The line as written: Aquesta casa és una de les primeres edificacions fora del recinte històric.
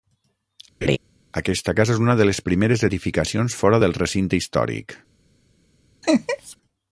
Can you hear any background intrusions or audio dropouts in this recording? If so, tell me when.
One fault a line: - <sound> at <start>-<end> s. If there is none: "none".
- laugh at 0.8-1.0 s
- laugh at 6.0-6.6 s